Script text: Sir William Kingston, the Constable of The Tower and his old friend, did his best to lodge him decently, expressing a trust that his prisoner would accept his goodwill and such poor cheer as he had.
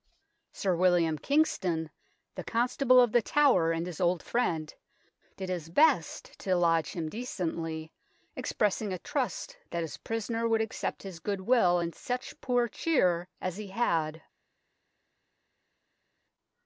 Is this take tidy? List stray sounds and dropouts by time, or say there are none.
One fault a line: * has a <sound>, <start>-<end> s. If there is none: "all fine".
all fine